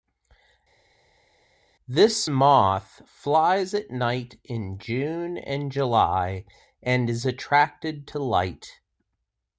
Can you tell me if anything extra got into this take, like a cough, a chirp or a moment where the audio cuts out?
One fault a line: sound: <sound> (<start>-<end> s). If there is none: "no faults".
no faults